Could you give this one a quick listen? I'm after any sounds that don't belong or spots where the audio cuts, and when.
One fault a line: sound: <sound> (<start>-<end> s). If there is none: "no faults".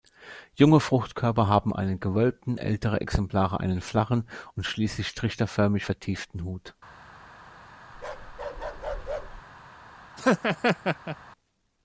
sound: bark (7.9-9.4 s)
sound: laugh (10.2-11.2 s)